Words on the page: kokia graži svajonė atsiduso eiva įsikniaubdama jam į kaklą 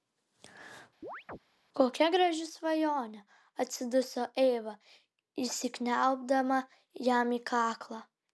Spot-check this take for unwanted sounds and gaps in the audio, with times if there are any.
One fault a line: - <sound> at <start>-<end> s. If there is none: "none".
- chirp at 1.0-1.4 s